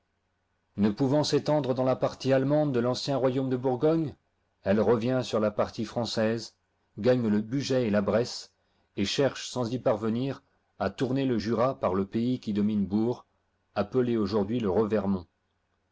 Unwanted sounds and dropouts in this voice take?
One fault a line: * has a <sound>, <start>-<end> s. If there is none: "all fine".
all fine